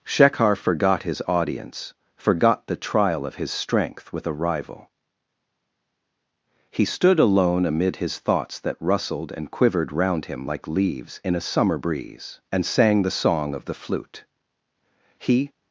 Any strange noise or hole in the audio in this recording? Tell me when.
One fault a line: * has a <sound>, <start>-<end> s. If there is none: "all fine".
all fine